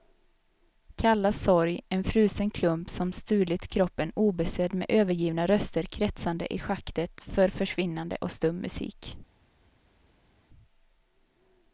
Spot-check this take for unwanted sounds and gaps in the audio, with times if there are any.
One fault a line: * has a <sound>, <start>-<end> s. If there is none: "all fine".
all fine